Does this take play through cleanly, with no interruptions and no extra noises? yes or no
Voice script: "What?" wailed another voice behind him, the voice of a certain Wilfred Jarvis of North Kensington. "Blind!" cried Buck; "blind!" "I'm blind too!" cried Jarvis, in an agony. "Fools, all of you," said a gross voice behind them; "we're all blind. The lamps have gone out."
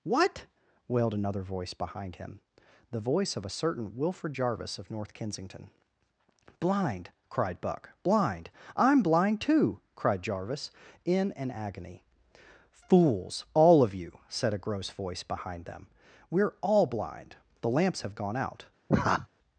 no